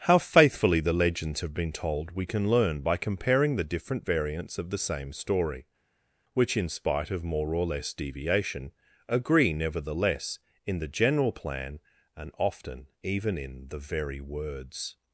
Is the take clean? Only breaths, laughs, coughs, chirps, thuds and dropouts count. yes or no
yes